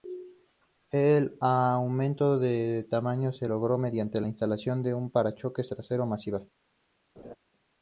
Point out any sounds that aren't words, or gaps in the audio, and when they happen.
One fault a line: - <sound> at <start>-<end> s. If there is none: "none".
- laugh at 7.2-7.4 s